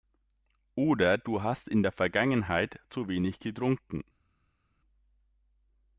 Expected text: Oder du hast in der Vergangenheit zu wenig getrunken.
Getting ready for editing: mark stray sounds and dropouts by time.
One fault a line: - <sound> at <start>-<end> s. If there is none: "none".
none